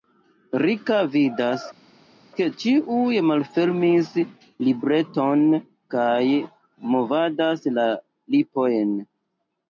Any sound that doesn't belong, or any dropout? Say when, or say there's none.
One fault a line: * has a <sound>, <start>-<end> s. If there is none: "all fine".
all fine